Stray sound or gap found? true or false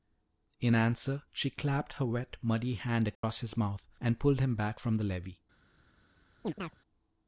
true